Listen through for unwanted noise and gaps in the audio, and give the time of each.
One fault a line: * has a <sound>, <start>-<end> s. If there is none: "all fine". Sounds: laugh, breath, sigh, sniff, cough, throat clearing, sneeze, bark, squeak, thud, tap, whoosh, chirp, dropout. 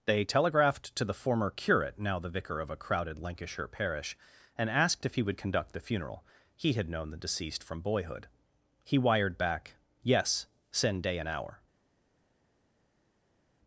all fine